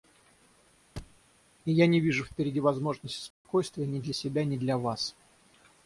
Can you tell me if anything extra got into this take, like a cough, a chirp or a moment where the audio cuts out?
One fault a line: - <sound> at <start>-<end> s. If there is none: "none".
- thud at 1.0-1.2 s
- dropout at 3.3-3.4 s